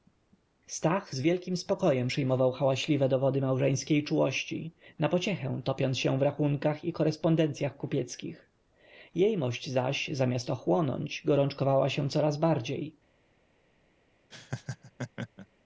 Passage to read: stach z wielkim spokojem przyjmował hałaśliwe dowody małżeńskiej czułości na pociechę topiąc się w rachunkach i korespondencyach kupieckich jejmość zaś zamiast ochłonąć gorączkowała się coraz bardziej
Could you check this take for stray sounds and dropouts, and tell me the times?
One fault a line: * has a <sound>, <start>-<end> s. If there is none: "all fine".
* has a laugh, 14.3-15.5 s